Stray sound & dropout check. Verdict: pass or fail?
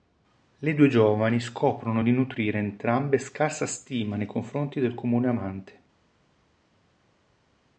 pass